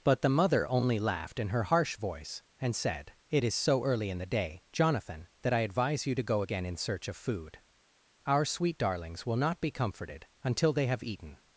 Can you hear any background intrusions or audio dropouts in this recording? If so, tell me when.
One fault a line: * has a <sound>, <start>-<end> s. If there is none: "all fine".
all fine